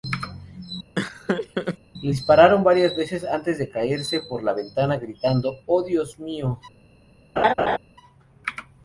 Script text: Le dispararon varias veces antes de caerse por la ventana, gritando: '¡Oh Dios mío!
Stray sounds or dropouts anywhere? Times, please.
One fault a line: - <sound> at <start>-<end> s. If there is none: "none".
- laugh at 0.9-1.8 s
- laugh at 7.4-7.8 s